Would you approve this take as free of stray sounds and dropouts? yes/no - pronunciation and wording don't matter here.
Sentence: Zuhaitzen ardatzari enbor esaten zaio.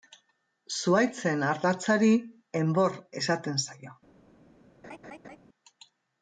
no